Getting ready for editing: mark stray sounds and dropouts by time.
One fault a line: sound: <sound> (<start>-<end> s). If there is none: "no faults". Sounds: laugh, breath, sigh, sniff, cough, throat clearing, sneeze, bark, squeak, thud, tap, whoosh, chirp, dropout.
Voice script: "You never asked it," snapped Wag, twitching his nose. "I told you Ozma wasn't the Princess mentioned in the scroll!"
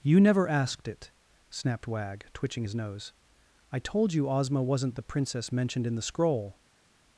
no faults